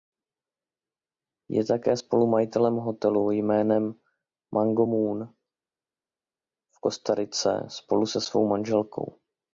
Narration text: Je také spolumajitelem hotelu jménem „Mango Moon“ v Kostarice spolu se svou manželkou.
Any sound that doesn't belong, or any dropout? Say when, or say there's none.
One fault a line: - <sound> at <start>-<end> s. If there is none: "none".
none